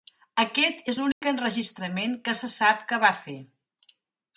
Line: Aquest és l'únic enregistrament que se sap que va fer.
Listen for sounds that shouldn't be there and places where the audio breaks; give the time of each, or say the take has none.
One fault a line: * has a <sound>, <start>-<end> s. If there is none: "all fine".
* has a dropout, 1.1-1.2 s